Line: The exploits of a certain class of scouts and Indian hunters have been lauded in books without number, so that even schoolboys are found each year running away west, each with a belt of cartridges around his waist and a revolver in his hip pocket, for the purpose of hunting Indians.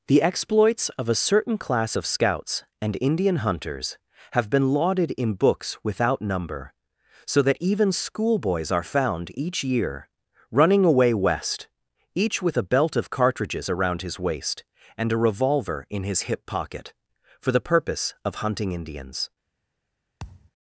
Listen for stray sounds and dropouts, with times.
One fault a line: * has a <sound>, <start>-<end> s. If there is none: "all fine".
* has a thud, 20.2-20.5 s